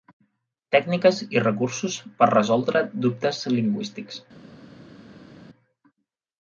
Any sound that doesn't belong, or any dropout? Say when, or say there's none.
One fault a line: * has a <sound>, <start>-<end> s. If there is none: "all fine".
all fine